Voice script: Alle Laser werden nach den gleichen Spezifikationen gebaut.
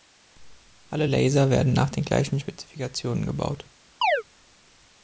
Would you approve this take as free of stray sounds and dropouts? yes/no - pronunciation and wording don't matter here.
no